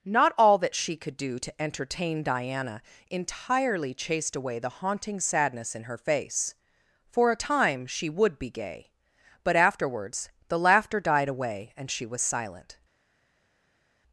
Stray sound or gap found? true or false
false